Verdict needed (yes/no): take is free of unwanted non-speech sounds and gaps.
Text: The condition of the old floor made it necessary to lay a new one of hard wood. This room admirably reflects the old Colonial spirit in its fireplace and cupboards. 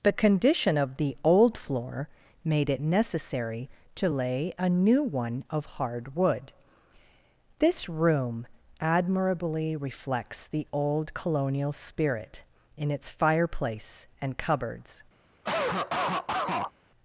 no